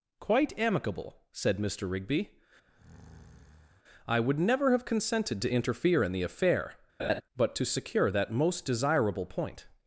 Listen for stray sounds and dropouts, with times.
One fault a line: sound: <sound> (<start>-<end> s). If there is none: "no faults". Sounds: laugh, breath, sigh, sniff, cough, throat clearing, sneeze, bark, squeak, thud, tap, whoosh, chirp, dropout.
sound: breath (2.7-3.8 s)
sound: laugh (7.0-7.2 s)